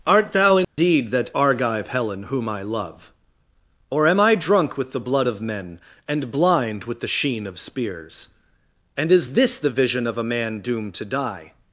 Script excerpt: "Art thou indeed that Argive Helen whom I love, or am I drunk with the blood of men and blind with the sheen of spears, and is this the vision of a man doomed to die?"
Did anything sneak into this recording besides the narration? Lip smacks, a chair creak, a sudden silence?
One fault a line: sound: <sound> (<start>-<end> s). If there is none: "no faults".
sound: dropout (0.6-0.8 s)